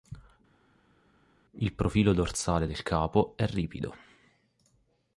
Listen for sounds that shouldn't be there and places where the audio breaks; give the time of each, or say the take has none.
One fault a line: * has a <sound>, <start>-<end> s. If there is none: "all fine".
all fine